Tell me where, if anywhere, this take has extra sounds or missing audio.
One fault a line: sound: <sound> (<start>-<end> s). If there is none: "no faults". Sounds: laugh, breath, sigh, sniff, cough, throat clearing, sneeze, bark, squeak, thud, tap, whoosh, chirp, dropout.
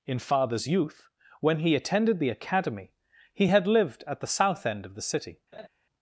sound: laugh (5.5-5.7 s)